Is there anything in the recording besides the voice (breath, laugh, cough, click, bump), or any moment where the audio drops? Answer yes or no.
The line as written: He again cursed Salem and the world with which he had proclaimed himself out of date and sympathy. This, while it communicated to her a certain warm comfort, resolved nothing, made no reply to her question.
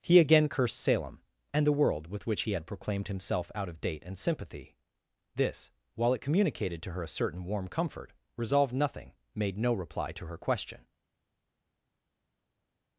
no